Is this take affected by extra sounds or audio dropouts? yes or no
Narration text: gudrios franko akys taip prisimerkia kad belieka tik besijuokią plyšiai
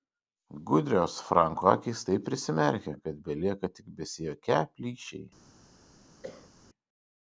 yes